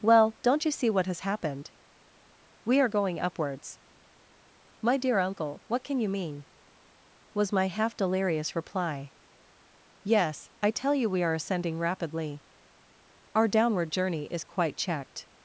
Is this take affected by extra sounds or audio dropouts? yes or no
no